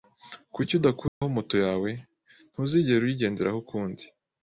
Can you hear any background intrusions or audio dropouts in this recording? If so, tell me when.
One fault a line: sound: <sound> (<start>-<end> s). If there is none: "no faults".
sound: dropout (1.1-1.2 s)